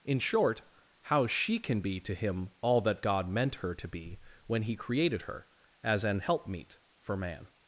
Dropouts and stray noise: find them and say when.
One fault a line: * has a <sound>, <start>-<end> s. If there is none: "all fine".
all fine